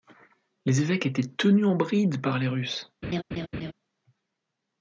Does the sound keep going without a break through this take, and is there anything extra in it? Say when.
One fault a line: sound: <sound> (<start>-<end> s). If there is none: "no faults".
sound: laugh (3.0-3.7 s)